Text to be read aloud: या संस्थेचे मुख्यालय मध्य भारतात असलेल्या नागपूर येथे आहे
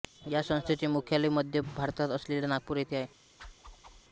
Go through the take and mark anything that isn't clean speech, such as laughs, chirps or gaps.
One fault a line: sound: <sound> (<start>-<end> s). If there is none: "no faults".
sound: whoosh (3.4-4.0 s)